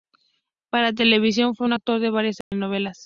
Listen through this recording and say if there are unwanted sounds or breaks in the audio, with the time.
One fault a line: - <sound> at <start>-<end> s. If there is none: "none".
- dropout at 2.4-2.5 s